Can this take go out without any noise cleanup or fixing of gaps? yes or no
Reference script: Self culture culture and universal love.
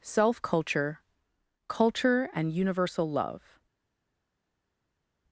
yes